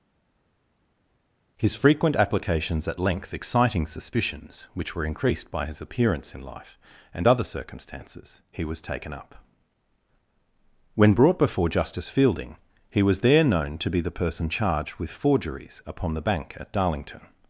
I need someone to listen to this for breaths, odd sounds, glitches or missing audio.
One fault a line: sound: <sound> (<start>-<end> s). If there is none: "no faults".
no faults